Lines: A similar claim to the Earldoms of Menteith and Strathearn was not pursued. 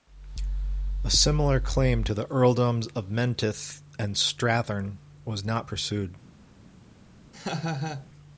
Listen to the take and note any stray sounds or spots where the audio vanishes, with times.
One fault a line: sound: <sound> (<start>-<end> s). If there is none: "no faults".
sound: laugh (7.3-8.1 s)